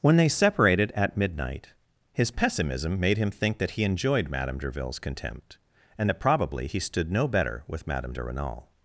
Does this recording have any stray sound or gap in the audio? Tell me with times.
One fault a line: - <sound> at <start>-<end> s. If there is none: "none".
none